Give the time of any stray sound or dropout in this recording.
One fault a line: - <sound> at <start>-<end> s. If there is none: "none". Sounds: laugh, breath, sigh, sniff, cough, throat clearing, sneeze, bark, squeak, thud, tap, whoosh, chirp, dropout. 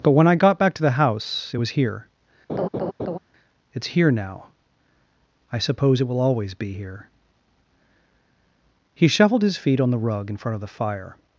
- laugh at 2.5-3.2 s